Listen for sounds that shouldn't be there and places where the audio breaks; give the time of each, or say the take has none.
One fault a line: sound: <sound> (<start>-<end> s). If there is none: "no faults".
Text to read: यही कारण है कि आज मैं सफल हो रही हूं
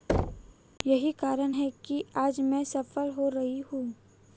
sound: thud (0.1-0.5 s)